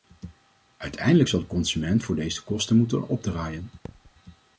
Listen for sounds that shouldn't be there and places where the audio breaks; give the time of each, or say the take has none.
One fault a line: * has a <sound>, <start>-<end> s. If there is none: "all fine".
* has a thud, 3.8-4.1 s